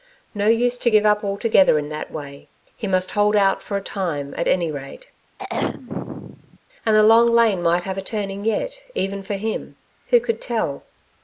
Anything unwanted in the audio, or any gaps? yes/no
yes